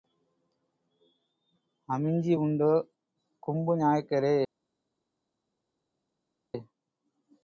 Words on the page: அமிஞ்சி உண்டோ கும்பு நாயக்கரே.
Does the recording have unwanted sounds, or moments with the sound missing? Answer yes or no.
no